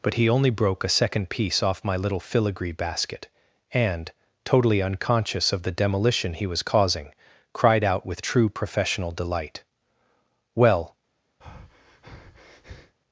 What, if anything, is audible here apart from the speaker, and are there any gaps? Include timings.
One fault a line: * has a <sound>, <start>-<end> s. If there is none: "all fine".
* has a breath, 11.4-13.0 s